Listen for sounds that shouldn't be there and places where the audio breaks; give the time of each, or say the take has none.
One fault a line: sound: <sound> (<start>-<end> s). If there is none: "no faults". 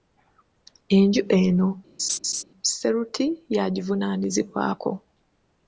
sound: laugh (2.0-2.4 s)